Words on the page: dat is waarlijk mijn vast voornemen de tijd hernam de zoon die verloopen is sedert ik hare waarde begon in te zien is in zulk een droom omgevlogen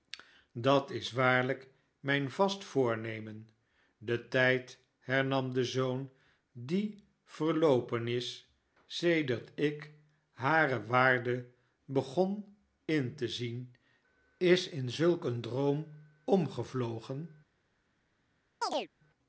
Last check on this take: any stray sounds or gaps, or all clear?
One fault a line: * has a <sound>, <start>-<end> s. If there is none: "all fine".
* has a chirp, 18.6-18.9 s